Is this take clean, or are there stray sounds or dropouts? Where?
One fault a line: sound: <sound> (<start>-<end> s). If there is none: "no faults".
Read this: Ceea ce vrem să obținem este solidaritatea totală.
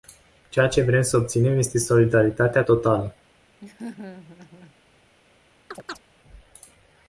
sound: laugh (3.6-4.8 s)
sound: chirp (5.7-6.0 s)